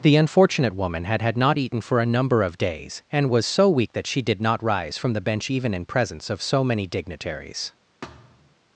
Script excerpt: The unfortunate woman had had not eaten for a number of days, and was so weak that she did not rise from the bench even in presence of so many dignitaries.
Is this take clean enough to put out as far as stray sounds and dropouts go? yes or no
no